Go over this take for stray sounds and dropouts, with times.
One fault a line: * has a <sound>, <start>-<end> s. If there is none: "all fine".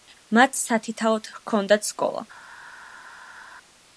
all fine